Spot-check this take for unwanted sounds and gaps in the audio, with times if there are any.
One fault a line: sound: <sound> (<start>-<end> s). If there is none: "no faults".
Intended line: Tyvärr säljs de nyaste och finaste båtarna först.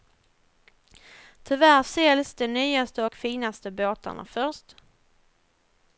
no faults